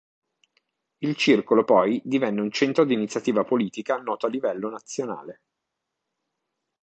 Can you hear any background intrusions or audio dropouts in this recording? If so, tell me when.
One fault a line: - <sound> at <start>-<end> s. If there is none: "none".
none